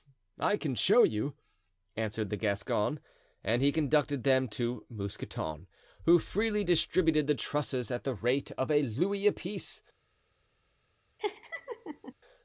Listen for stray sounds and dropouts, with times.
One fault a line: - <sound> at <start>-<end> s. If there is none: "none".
- laugh at 11.2-12.1 s